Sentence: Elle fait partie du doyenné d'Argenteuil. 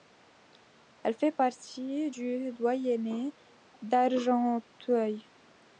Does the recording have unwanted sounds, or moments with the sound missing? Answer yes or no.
no